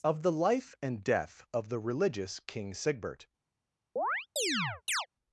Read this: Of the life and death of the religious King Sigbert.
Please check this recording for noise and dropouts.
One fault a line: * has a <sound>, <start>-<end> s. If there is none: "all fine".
* has a chirp, 4.0-5.1 s